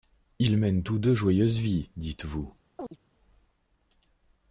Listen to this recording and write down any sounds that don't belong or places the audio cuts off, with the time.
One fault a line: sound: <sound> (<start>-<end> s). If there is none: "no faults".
sound: chirp (2.8-3.0 s)